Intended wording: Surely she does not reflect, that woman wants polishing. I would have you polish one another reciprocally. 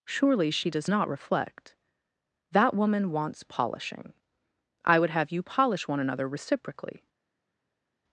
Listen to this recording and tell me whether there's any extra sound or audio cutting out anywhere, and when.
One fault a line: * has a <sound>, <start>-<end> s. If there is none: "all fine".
all fine